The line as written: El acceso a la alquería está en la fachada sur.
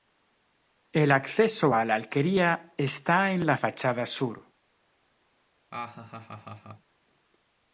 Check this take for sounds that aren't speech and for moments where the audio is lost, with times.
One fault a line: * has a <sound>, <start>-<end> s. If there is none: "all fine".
* has a laugh, 5.7-6.9 s